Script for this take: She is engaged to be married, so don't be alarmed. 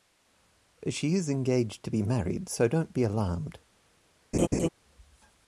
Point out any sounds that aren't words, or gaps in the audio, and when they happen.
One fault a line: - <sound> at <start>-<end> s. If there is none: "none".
- laugh at 4.3-4.7 s